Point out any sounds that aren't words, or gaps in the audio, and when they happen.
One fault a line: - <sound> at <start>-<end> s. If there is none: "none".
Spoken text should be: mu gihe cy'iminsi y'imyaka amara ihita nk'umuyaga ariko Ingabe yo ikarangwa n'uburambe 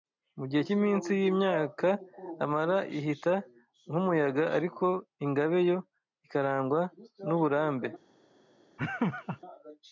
- laugh at 8.8-9.4 s